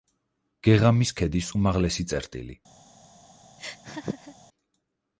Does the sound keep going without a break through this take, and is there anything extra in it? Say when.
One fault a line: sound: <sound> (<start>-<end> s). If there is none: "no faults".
sound: laugh (3.6-4.4 s)